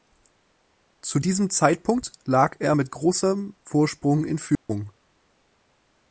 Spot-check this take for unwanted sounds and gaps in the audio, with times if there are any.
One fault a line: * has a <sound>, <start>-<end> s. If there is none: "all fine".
* has a dropout, 4.6-4.7 s